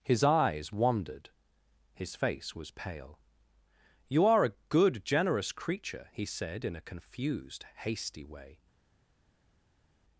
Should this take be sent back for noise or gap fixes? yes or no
no